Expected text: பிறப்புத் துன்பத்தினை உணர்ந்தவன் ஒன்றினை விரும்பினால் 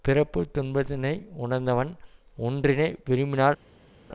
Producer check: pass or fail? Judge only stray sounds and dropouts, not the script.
pass